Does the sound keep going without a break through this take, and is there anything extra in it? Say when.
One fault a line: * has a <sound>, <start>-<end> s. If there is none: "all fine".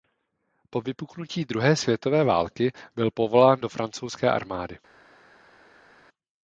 all fine